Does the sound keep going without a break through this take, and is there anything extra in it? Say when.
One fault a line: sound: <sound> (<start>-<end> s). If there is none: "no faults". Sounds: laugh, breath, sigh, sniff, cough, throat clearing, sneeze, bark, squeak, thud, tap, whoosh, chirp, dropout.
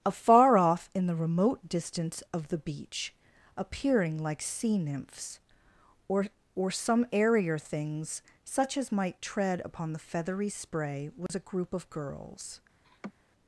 sound: dropout (11.3-11.3 s)
sound: laugh (12.8-13.1 s)